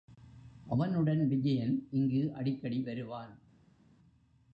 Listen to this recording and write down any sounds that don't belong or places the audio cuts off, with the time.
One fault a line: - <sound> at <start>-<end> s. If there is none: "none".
none